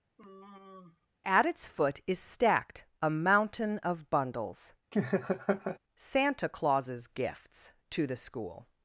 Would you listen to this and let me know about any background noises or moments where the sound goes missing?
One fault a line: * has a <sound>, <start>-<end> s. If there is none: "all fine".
* has a sigh, 0.2-1.1 s
* has a laugh, 4.9-5.8 s